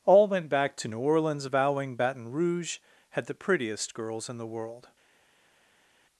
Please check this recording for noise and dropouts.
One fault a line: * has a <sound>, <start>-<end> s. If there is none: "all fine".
all fine